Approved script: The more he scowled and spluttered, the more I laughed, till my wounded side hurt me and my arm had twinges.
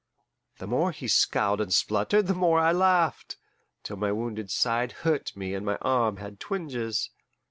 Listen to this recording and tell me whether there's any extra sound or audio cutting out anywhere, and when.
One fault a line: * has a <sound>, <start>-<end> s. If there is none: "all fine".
all fine